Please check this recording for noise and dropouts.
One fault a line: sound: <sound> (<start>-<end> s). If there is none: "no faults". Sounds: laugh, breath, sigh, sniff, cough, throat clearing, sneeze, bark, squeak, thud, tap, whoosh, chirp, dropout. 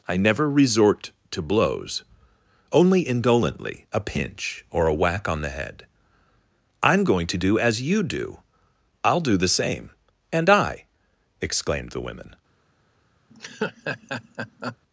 sound: laugh (13.3-14.8 s)